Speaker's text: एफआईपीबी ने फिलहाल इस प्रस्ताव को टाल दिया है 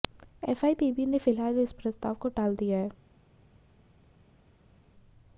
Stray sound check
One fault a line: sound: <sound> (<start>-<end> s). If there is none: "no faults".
no faults